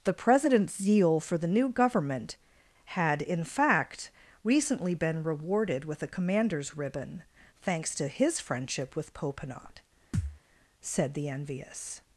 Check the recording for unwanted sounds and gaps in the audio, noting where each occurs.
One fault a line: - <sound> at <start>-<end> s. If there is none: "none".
- thud at 10.1-10.4 s